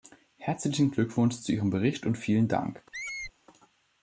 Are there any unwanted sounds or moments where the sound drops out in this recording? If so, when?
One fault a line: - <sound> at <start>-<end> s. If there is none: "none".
- squeak at 2.9-3.3 s